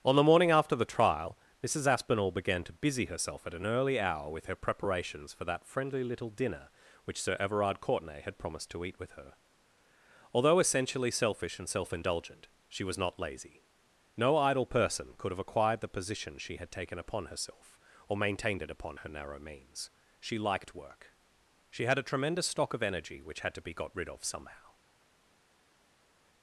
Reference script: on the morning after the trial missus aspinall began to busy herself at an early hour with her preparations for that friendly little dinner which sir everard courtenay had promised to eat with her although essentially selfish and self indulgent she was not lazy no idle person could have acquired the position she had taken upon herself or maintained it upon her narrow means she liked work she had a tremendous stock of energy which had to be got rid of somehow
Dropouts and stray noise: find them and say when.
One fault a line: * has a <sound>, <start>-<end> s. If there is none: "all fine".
all fine